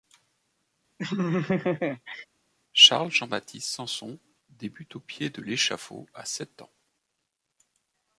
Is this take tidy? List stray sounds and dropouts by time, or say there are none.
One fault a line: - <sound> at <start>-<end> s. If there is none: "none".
- laugh at 1.0-2.3 s